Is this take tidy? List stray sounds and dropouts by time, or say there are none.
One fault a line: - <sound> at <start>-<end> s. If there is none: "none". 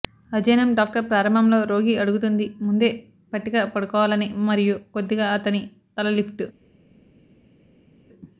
none